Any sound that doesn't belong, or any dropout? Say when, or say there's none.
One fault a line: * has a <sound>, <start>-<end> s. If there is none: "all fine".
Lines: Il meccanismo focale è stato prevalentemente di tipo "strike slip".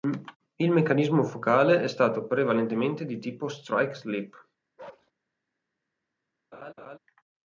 * has a bark, 4.8-5.1 s
* has a laugh, 6.5-7.0 s